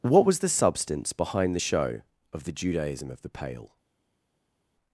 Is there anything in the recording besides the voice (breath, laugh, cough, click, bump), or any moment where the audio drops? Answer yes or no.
no